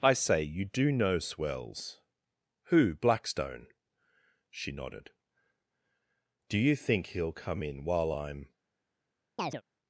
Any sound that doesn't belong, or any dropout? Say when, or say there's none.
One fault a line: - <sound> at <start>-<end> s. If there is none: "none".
- chirp at 9.4-9.6 s